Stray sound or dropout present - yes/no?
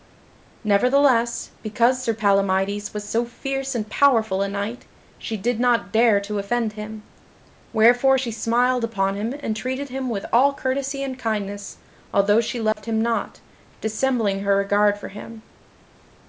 yes